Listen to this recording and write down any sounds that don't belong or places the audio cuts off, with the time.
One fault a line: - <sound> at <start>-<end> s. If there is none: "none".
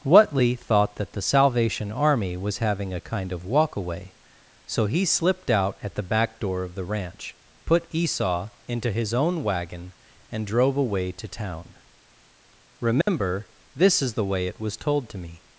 - dropout at 13.0-13.1 s